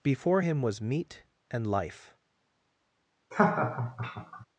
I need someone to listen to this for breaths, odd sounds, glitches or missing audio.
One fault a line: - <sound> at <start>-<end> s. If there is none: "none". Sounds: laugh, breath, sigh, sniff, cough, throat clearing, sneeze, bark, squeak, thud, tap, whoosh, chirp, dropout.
- laugh at 3.3-4.5 s